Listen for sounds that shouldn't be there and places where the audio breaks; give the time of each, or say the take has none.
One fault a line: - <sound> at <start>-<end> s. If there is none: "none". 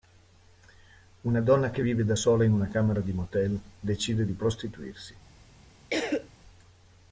- cough at 5.9-6.3 s